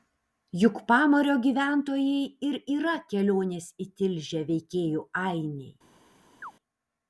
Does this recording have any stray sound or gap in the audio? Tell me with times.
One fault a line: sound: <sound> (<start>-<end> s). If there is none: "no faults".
sound: chirp (6.4-6.5 s)